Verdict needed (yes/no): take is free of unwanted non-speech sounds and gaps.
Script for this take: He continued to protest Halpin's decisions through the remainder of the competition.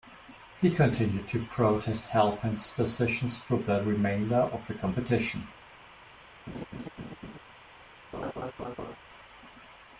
no